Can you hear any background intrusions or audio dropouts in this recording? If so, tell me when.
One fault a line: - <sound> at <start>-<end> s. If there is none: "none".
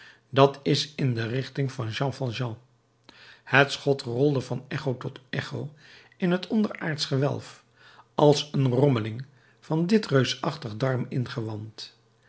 none